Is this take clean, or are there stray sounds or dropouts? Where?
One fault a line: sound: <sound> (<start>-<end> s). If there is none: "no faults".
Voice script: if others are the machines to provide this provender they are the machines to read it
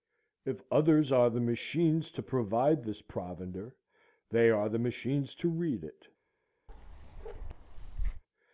sound: bark (6.7-8.2 s)